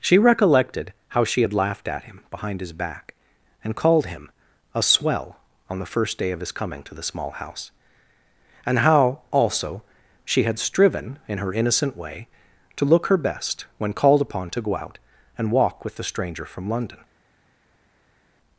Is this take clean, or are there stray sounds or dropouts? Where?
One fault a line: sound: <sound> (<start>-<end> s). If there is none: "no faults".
no faults